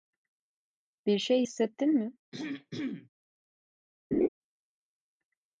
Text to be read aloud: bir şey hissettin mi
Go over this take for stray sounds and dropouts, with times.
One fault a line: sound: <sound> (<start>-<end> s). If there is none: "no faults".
sound: throat clearing (2.3-3.1 s)
sound: laugh (4.1-4.3 s)